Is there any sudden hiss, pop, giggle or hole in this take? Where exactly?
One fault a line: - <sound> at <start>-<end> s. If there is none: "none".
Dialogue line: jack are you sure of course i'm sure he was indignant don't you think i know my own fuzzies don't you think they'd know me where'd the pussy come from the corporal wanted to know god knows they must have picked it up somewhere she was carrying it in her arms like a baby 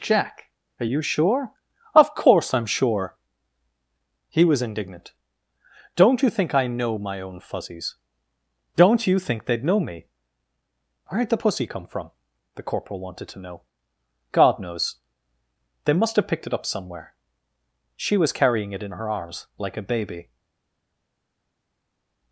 none